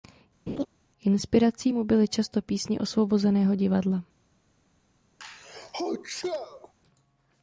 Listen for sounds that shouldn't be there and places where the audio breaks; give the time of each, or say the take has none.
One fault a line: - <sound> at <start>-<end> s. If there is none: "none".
- laugh at 0.5-0.7 s
- sneeze at 5.2-6.7 s